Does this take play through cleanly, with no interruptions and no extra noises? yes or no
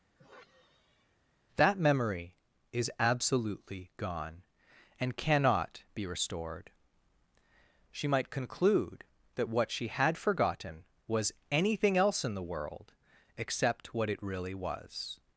no